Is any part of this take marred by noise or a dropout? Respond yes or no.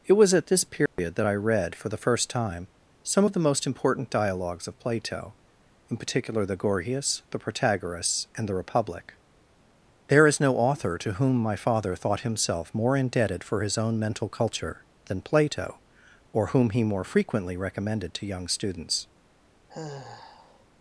yes